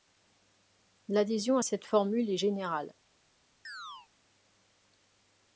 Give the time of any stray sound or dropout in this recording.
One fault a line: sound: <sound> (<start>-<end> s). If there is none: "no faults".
sound: chirp (3.6-4.1 s)